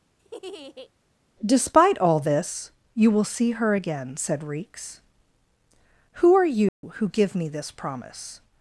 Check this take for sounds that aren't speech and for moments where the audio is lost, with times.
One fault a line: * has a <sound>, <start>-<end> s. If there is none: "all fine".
* has a laugh, 0.2-0.9 s
* has a dropout, 6.7-6.8 s